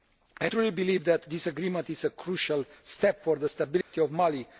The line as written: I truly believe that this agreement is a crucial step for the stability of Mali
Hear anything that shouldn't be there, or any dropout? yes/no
yes